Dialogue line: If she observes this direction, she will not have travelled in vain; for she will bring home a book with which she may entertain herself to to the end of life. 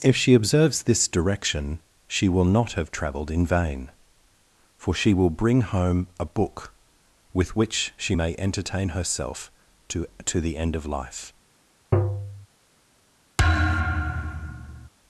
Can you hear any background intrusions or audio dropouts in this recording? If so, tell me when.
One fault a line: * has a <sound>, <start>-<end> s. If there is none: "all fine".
* has a tap, 11.9-12.5 s
* has a thud, 13.4-14.9 s